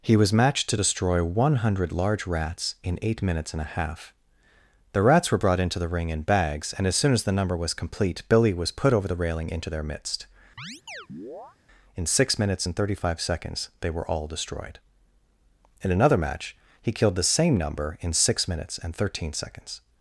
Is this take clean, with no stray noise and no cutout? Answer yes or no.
no